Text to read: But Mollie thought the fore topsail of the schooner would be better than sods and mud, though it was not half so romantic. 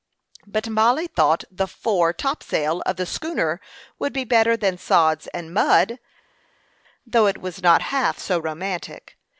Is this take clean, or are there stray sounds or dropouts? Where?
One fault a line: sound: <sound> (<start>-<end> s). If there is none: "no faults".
no faults